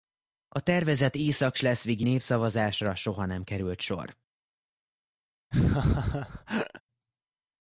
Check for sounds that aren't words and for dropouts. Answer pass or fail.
fail